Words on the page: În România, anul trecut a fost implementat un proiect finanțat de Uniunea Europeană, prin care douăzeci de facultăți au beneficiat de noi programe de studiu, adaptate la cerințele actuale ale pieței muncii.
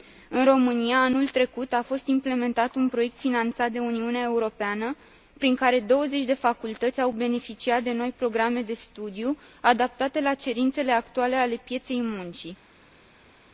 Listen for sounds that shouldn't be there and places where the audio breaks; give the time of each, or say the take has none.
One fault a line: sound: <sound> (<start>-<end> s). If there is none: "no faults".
no faults